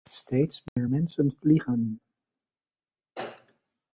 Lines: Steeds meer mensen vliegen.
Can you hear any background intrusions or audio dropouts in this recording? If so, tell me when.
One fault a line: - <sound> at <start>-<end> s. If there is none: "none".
- dropout at 0.7-0.8 s